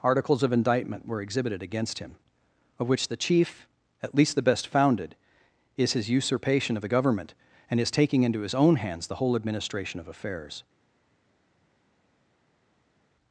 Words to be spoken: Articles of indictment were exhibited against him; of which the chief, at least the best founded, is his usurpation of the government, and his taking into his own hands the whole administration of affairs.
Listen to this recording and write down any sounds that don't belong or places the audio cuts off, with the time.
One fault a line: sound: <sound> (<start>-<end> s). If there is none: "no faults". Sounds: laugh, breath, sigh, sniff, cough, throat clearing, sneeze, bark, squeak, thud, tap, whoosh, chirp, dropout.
no faults